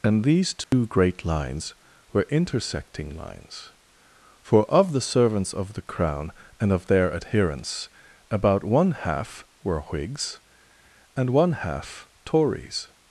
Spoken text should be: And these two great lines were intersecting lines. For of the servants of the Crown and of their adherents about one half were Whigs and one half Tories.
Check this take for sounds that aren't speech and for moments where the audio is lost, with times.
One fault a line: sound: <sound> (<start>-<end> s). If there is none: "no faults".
sound: dropout (0.6-0.7 s)